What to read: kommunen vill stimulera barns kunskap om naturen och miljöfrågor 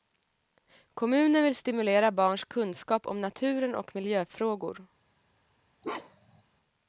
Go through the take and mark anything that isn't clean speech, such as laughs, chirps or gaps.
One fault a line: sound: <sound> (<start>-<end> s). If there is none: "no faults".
sound: bark (5.8-6.4 s)